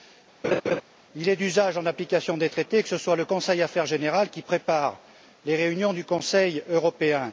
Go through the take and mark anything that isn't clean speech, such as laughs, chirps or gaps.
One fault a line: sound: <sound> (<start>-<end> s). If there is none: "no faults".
sound: laugh (0.4-0.8 s)